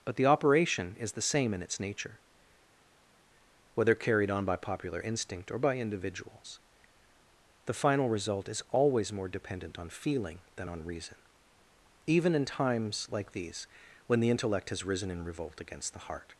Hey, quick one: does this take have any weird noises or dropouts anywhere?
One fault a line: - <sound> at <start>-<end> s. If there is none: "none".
none